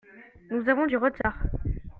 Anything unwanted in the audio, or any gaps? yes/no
yes